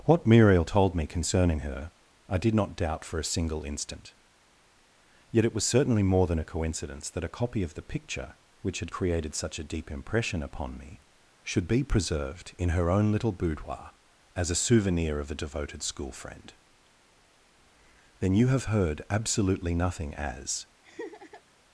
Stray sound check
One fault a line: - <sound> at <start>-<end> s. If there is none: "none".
- laugh at 20.8-21.4 s